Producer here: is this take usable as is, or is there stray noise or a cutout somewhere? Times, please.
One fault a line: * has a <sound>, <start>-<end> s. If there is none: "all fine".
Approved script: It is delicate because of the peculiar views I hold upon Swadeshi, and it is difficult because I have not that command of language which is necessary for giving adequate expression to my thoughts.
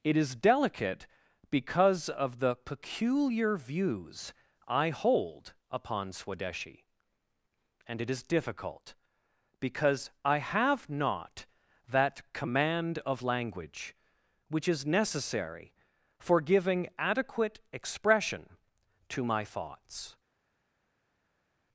all fine